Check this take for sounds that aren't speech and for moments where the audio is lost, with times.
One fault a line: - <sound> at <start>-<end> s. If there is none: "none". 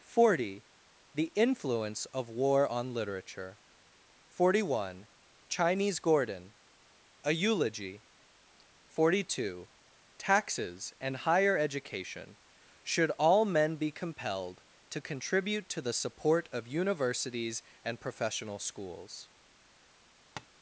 - tap at 20.4-20.5 s